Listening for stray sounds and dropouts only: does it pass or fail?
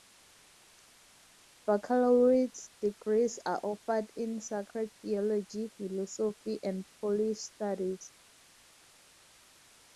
pass